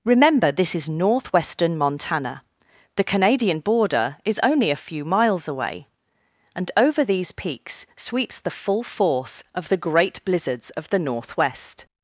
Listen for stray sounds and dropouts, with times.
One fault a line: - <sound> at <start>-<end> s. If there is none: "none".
none